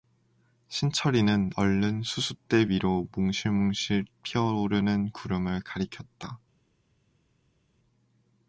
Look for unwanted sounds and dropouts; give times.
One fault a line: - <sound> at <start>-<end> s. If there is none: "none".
none